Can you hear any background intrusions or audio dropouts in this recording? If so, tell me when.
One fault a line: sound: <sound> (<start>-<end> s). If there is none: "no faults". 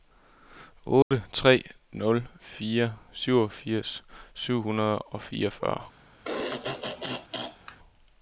sound: dropout (1.0-1.1 s)
sound: throat clearing (6.2-7.8 s)